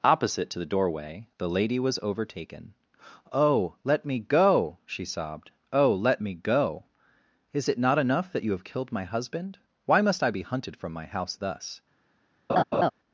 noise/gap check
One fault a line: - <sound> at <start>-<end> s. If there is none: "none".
- laugh at 12.5-12.9 s